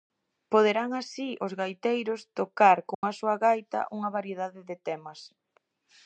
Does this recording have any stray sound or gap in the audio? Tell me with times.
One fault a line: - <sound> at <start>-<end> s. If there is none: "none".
- dropout at 2.9-3.0 s